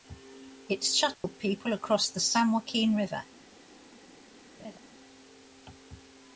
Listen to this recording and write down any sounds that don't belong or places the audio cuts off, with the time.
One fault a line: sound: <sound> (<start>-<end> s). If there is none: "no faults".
sound: dropout (1.1-1.2 s)
sound: laugh (4.6-4.8 s)